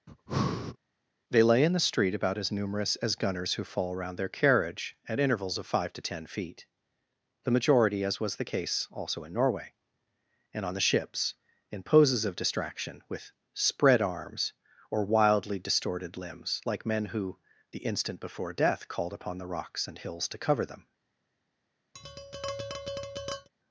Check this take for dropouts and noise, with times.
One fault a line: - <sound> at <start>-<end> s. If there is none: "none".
- breath at 0.1-0.8 s
- tap at 21.9-23.5 s